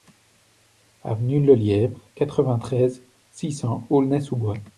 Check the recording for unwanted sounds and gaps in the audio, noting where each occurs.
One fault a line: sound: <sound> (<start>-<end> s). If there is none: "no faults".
no faults